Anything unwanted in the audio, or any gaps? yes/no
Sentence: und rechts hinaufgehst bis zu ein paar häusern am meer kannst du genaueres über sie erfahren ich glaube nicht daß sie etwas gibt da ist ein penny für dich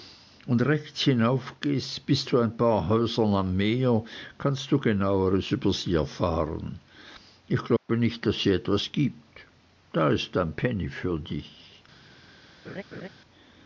yes